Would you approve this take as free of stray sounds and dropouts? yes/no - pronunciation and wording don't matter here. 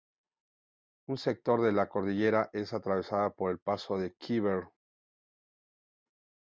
yes